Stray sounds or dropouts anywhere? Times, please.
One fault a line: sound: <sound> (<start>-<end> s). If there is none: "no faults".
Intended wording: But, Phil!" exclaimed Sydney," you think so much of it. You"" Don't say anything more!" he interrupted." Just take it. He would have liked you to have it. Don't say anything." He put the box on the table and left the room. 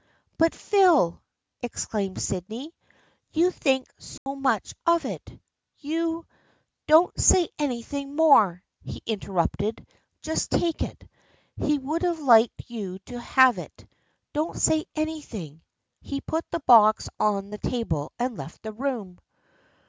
sound: dropout (4.2-4.3 s)